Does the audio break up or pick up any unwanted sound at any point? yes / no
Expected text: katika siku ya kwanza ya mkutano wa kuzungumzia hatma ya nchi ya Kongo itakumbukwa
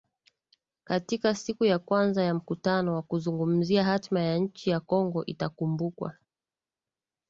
no